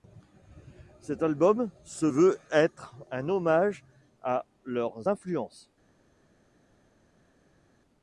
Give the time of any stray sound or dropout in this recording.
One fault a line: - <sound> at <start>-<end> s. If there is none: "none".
none